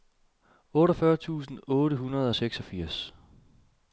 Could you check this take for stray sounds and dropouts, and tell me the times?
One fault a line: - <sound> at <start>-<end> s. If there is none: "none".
none